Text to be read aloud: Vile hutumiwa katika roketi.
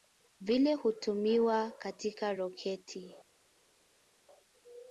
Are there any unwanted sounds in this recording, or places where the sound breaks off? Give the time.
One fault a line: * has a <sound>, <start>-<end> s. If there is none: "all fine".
all fine